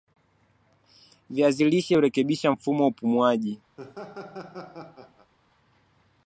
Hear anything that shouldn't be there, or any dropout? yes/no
yes